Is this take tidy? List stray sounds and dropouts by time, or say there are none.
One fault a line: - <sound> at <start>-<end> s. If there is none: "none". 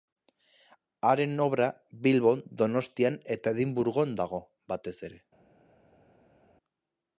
none